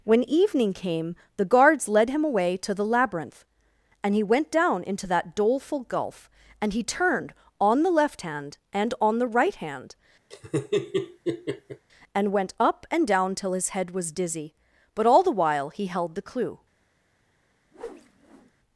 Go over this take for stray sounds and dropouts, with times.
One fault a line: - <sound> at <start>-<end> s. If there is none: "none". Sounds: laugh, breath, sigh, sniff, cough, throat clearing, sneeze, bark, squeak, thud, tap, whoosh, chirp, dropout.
- laugh at 10.3-11.9 s
- whoosh at 17.7-18.5 s